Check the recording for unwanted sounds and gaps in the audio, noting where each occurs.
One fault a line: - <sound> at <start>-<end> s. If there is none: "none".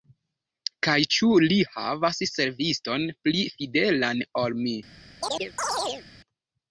- chirp at 5.2-6.1 s